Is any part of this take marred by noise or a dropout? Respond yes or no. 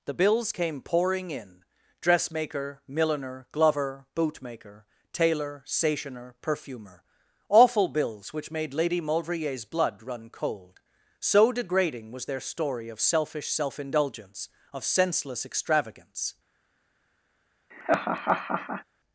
yes